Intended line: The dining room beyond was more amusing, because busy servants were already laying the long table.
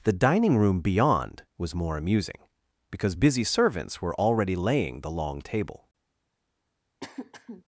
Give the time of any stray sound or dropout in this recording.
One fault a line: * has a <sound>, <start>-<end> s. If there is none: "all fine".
* has a throat clearing, 7.0-7.6 s